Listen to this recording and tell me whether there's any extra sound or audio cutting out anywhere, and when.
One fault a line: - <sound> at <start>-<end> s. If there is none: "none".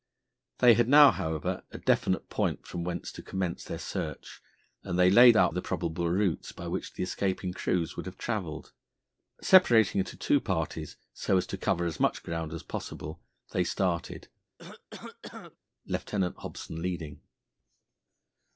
- cough at 14.6-15.6 s